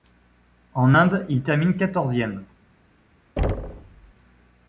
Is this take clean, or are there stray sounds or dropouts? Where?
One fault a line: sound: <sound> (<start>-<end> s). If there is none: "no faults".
sound: thud (3.4-4.1 s)